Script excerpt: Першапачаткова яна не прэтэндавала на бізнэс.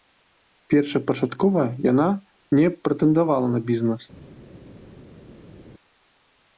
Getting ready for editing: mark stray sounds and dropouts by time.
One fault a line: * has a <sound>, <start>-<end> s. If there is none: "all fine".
all fine